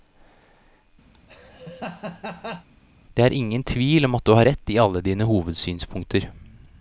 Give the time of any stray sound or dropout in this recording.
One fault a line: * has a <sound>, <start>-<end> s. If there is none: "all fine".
* has a laugh, 1.1-2.7 s